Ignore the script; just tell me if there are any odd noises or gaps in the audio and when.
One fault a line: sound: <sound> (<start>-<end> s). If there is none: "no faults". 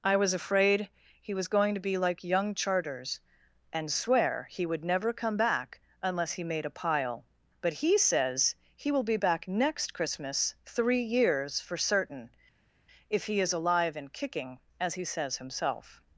no faults